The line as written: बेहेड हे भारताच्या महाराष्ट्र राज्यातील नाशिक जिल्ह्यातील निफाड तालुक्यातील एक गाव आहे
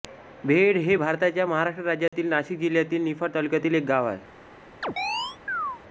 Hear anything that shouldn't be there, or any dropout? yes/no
yes